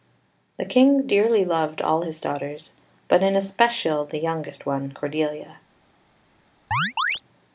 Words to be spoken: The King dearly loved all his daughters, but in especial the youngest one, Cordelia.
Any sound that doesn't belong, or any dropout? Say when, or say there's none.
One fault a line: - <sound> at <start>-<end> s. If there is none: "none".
- chirp at 6.7-7.2 s